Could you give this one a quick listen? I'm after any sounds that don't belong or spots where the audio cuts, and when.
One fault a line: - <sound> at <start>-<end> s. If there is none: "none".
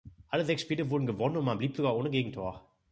none